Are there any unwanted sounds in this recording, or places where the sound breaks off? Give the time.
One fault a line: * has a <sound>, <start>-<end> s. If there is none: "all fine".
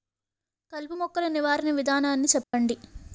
* has a dropout, 2.4-2.5 s